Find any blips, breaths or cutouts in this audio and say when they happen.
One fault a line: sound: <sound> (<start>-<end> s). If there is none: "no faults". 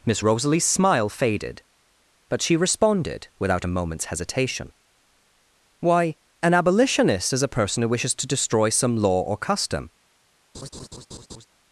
sound: laugh (10.5-11.5 s)